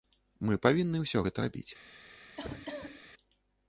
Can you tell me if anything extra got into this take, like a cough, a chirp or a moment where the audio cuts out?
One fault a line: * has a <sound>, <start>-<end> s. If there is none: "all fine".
* has a cough, 2.4-3.1 s